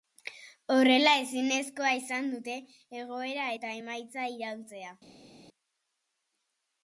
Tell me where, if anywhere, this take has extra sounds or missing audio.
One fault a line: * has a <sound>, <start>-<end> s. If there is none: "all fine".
all fine